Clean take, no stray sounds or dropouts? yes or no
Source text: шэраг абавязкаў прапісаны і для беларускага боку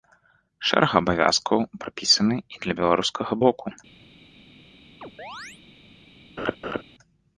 no